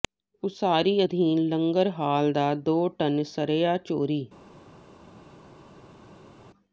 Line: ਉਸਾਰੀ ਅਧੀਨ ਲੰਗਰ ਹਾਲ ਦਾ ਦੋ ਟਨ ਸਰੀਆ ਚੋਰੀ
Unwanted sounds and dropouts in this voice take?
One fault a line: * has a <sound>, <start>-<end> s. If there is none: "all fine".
all fine